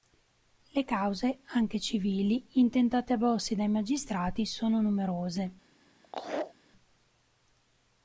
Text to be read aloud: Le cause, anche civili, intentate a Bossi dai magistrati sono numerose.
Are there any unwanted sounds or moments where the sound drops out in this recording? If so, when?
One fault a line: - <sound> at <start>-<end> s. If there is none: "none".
- laugh at 6.0-6.5 s